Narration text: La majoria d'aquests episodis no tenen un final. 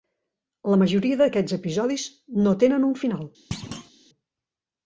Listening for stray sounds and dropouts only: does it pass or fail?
fail